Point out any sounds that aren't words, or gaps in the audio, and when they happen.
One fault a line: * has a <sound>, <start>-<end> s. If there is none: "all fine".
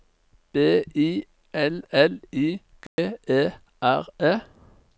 * has a dropout, 2.9-3.0 s